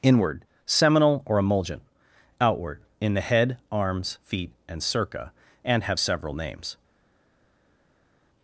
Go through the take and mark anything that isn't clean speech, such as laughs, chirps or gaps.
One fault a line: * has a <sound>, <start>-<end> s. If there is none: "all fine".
all fine